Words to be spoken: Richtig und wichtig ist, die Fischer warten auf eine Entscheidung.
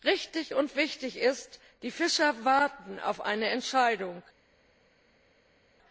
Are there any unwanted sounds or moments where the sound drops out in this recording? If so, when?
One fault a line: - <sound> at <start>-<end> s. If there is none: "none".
none